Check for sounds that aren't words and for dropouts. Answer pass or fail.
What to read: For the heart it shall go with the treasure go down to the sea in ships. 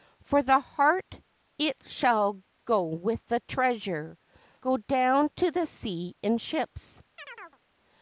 fail